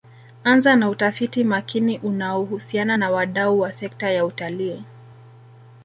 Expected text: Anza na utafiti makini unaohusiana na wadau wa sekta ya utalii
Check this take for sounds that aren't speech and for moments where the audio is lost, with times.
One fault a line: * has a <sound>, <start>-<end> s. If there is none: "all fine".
all fine